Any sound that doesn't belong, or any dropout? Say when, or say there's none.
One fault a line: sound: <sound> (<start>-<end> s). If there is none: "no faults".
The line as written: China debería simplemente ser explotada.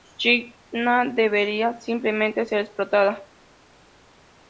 no faults